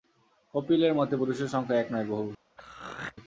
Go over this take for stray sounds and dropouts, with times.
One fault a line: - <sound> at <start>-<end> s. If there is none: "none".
- throat clearing at 2.6-3.2 s